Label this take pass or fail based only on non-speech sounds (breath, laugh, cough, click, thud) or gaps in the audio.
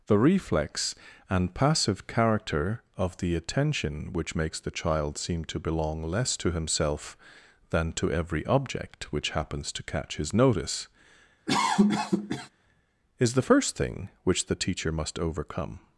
fail